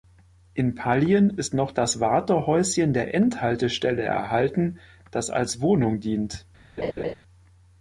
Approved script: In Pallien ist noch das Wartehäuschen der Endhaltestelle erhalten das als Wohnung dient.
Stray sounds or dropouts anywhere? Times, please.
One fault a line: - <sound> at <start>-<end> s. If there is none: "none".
- laugh at 6.8-7.1 s